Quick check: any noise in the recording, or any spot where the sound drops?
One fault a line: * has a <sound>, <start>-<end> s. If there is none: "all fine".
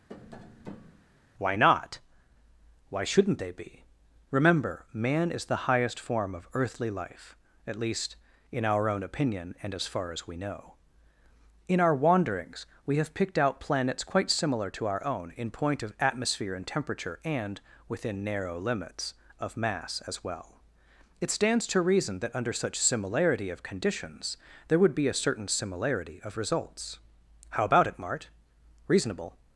* has a tap, 0.1-1.1 s